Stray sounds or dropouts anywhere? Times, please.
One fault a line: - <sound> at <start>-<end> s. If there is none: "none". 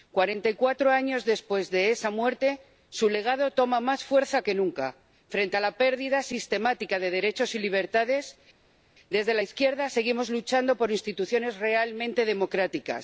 none